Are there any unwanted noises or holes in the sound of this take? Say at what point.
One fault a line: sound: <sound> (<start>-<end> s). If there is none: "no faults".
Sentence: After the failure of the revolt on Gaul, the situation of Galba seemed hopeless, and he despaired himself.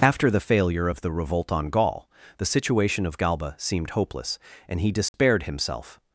sound: dropout (5.1-5.1 s)